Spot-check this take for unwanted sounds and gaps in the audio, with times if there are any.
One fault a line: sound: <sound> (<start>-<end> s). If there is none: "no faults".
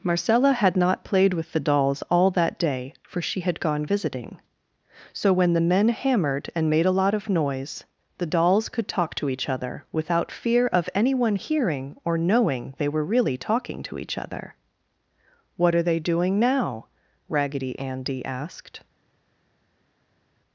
no faults